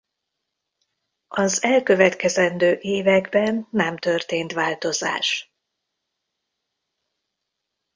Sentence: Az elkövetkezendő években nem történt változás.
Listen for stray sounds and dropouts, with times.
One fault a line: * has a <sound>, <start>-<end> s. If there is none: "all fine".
all fine